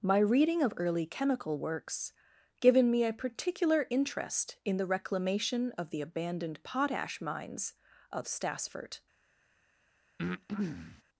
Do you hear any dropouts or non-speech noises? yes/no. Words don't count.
yes